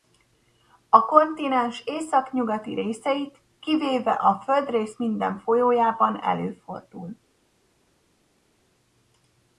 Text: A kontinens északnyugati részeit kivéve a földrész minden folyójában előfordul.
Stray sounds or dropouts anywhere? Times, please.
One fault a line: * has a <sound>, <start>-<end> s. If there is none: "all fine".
all fine